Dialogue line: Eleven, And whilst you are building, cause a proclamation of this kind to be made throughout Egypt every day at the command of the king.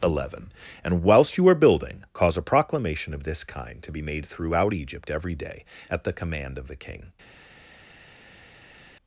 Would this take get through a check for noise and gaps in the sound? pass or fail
pass